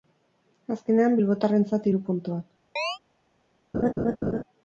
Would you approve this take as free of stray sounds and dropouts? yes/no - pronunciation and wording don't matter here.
no